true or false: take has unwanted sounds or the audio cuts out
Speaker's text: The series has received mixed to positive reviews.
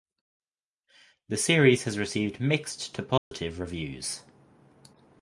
true